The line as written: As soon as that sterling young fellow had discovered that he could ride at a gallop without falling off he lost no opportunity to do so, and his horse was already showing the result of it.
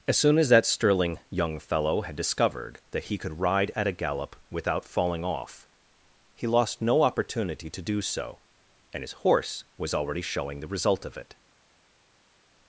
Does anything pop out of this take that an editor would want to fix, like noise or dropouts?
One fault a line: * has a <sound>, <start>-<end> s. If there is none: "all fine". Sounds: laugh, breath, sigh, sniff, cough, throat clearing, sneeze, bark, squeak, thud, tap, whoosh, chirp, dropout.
all fine